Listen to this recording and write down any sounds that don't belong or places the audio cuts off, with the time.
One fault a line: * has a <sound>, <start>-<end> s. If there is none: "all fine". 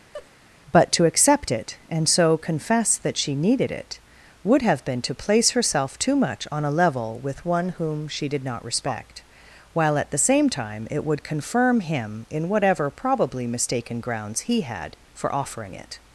* has a laugh, 0.1-0.3 s